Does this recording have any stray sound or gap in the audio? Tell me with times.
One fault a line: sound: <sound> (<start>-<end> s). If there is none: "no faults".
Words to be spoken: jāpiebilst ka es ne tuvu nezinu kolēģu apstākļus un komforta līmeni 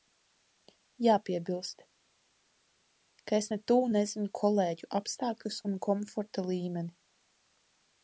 no faults